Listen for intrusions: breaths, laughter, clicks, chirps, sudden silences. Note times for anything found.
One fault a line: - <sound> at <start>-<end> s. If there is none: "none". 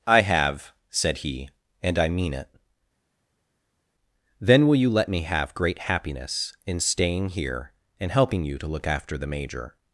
none